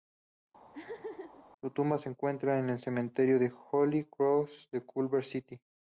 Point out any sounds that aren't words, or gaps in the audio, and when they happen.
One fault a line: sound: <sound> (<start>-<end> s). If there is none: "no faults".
sound: laugh (0.7-1.4 s)